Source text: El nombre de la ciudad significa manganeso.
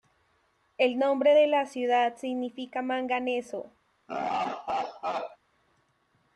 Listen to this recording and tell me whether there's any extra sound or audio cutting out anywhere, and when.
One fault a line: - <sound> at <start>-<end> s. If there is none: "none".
- laugh at 4.1-5.4 s